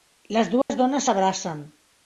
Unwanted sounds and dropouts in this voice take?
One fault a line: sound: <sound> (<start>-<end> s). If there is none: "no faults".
sound: dropout (0.6-0.7 s)